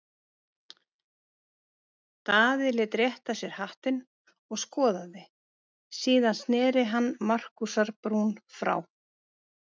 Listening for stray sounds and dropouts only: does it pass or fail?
pass